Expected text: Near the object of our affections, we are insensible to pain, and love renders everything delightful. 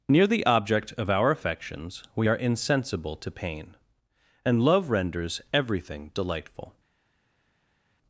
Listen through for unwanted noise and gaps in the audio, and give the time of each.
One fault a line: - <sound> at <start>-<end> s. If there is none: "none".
none